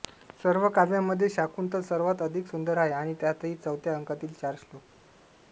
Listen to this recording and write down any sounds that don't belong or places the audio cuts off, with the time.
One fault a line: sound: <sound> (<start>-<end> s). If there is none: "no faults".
no faults